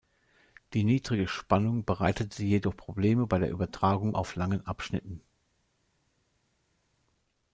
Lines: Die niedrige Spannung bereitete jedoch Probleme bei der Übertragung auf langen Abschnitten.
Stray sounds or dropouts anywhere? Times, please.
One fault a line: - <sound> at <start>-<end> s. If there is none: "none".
none